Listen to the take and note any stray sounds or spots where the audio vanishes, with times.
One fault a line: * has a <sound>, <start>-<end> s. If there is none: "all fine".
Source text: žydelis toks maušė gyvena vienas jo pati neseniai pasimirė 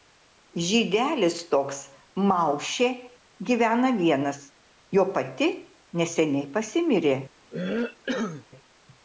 * has a cough, 7.5-8.5 s